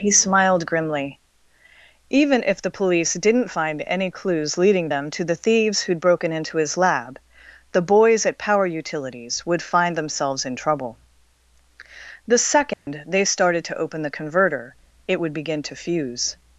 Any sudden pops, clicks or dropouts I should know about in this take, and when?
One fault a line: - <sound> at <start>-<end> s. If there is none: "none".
- dropout at 12.7-12.9 s